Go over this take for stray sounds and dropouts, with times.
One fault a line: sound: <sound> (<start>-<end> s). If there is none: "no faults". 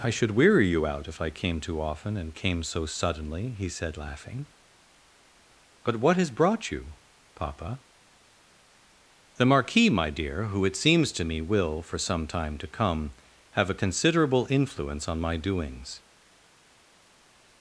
no faults